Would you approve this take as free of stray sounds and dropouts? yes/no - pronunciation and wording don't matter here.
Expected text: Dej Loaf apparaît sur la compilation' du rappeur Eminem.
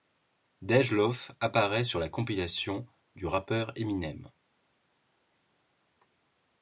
yes